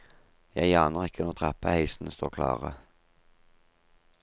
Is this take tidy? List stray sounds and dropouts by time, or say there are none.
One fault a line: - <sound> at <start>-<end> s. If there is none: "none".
none